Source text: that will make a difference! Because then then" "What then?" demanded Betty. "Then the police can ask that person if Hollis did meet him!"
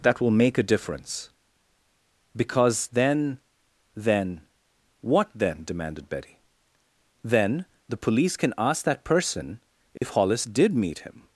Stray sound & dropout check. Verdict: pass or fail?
fail